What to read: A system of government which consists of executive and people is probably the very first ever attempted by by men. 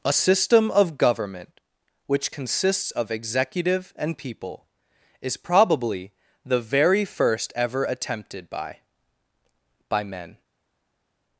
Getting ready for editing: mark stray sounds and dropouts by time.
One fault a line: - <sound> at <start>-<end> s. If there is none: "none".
none